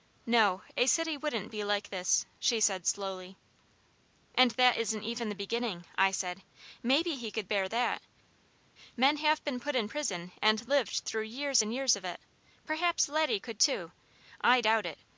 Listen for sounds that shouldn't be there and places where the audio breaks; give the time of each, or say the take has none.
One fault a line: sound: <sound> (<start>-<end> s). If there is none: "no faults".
no faults